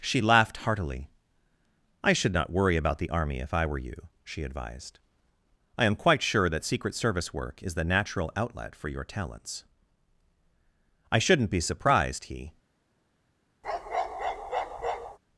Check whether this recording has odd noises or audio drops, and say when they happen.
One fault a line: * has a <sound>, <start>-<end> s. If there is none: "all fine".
* has a bark, 13.6-15.2 s